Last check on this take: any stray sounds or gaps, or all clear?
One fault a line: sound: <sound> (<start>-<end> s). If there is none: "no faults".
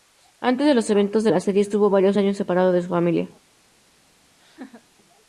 sound: laugh (4.4-4.9 s)